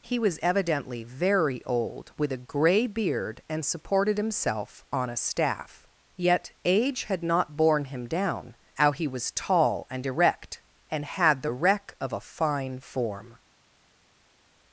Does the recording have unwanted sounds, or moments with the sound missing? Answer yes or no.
no